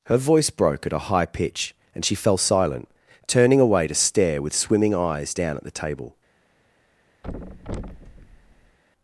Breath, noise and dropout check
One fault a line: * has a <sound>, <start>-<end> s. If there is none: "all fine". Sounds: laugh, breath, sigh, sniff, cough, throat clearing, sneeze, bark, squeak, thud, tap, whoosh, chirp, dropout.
* has a thud, 7.2-8.8 s